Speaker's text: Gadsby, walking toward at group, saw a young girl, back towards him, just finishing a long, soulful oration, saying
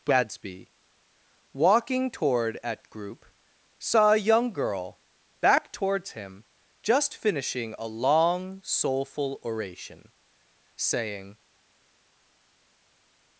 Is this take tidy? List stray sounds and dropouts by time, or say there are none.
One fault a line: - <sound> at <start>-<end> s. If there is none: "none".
none